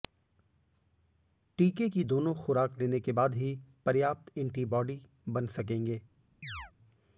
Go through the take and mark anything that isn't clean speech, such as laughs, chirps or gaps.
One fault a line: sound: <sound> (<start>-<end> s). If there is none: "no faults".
sound: chirp (6.4-6.7 s)